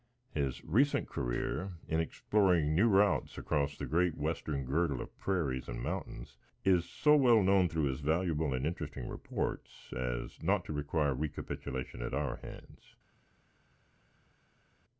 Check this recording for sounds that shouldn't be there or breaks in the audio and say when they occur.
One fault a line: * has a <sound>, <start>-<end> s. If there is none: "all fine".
all fine